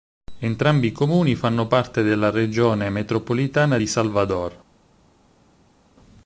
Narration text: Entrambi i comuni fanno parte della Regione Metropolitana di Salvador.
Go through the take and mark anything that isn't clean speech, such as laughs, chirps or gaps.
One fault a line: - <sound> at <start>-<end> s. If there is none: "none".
none